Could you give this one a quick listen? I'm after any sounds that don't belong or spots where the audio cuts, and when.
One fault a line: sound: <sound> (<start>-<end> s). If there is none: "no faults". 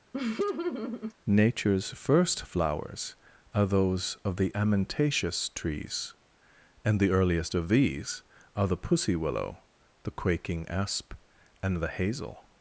sound: laugh (0.1-1.1 s)